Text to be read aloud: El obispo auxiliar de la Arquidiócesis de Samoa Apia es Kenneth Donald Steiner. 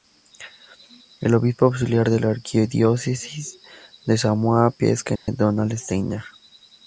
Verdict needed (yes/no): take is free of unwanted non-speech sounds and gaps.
no